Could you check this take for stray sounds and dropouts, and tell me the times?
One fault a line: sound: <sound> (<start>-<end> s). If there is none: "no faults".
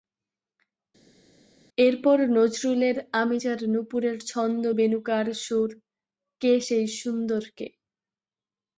no faults